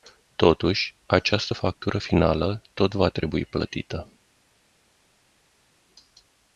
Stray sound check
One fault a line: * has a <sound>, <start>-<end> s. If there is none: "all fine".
all fine